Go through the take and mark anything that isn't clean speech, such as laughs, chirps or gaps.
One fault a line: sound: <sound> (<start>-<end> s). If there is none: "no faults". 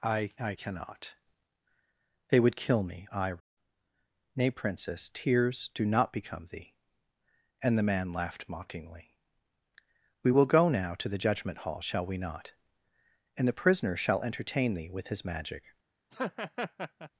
sound: laugh (16.1-17.1 s)